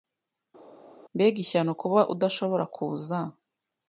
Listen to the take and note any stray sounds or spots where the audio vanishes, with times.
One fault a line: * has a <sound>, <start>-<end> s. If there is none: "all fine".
all fine